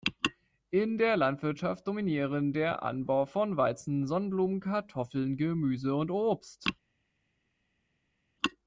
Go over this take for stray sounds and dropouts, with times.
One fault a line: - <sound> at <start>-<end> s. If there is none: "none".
none